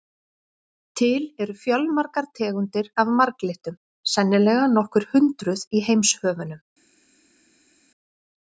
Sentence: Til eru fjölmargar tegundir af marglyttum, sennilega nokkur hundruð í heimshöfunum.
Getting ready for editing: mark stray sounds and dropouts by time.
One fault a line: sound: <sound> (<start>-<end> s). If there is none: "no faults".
no faults